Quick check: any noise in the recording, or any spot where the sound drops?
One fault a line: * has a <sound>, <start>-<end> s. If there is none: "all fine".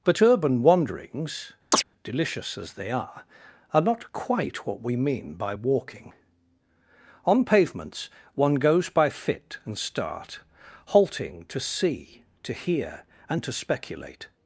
* has a chirp, 1.7-1.8 s